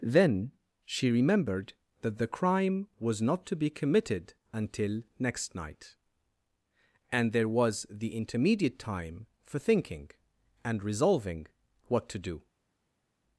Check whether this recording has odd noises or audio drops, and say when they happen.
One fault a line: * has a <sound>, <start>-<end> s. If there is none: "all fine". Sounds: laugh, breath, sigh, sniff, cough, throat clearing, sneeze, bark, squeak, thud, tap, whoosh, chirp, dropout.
all fine